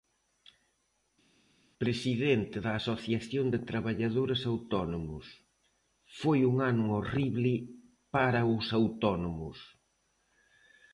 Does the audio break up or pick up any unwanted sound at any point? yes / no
no